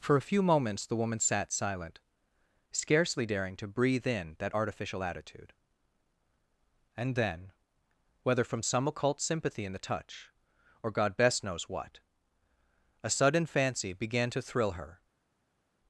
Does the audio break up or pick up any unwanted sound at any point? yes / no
no